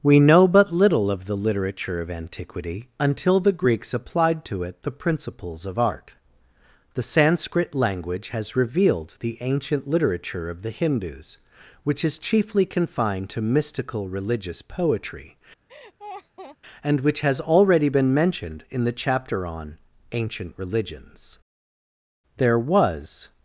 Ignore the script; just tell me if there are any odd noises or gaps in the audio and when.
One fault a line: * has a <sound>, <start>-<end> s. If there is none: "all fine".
* has a laugh, 15.7-16.6 s